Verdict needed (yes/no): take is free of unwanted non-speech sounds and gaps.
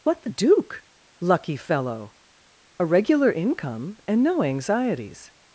yes